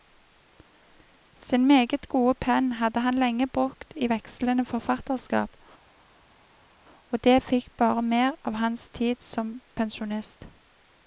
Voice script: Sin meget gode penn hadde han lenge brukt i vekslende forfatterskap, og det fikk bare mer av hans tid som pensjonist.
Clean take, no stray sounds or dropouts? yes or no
yes